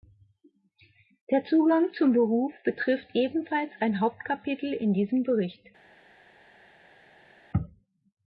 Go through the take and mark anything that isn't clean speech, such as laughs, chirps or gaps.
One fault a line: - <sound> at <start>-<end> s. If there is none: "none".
none